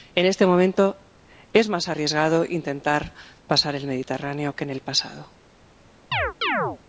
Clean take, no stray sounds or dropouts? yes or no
no